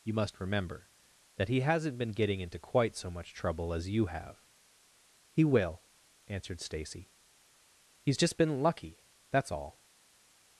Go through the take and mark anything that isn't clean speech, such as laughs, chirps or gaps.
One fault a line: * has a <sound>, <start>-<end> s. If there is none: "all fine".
all fine